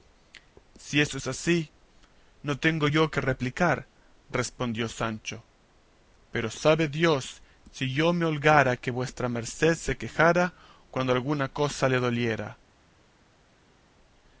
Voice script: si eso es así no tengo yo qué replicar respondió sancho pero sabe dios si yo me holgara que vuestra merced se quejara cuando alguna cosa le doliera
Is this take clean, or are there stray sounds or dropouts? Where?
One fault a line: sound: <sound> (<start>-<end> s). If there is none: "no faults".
no faults